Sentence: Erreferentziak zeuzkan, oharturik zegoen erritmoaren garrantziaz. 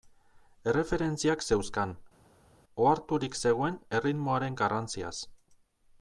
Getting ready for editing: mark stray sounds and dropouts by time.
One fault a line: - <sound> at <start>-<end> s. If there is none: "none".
none